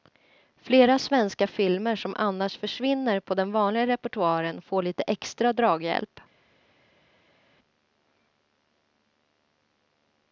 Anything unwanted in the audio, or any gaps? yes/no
no